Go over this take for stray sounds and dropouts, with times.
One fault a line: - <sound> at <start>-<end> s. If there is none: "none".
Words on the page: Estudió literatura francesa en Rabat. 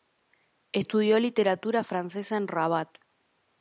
none